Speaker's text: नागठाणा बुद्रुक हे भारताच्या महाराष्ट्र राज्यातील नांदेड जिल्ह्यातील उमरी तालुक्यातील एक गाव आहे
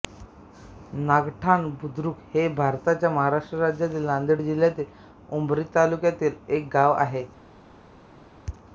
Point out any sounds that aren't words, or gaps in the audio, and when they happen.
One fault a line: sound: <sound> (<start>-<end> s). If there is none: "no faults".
no faults